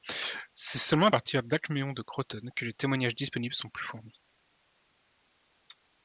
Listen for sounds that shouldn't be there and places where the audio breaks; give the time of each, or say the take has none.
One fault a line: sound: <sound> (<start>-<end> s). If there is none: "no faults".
no faults